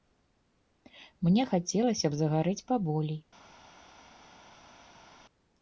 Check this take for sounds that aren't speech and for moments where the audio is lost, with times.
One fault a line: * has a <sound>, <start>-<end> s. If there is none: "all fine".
all fine